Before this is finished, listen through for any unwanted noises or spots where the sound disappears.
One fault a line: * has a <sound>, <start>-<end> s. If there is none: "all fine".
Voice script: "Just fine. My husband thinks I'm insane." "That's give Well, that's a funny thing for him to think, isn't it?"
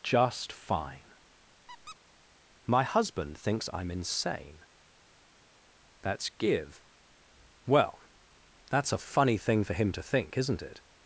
* has a squeak, 1.7-2.0 s